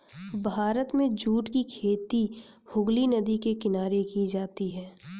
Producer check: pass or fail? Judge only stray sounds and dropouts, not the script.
pass